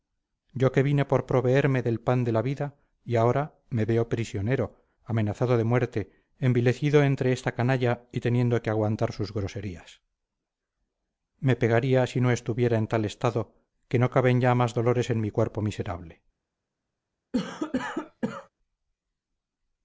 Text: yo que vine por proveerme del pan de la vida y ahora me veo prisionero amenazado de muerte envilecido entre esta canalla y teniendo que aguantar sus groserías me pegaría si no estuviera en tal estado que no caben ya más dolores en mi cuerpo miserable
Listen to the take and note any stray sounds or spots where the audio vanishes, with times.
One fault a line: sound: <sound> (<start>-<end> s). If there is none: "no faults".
sound: cough (17.3-18.5 s)